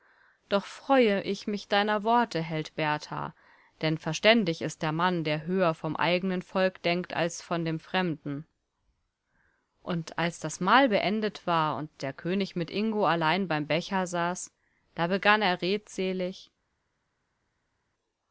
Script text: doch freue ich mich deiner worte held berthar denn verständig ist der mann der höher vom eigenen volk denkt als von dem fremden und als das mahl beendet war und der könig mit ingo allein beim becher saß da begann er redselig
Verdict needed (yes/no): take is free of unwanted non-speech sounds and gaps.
yes